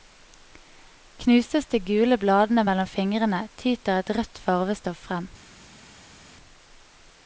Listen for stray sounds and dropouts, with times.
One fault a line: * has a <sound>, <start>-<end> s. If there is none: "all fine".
all fine